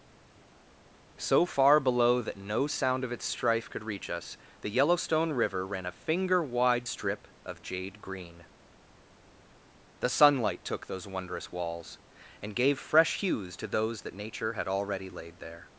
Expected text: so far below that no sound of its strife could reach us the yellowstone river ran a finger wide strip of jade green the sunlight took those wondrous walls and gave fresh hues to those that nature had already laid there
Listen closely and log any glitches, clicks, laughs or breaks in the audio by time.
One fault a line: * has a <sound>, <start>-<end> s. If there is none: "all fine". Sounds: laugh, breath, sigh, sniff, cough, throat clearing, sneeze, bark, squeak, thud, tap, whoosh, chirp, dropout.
all fine